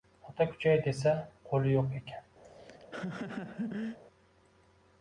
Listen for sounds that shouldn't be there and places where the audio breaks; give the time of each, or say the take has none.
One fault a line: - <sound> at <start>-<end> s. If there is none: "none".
- laugh at 2.4-4.0 s